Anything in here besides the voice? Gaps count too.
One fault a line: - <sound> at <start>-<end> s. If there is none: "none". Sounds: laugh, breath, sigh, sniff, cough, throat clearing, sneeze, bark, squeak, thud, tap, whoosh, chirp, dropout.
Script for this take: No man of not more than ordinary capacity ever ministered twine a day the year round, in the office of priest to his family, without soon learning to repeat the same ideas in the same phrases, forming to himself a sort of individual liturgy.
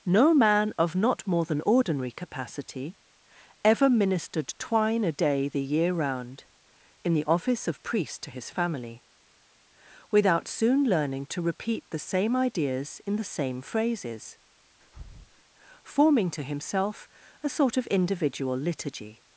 - breath at 14.8-15.4 s